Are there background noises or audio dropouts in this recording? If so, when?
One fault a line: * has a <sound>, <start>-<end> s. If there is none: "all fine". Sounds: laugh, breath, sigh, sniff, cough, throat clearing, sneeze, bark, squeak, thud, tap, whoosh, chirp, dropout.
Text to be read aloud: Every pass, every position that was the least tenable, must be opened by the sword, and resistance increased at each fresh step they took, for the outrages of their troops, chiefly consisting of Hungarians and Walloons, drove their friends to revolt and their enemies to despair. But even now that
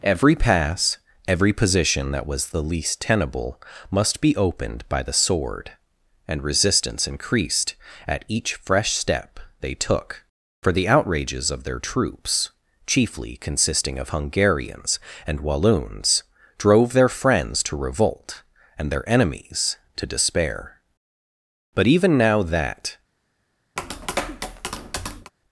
* has a tap, 23.8-25.3 s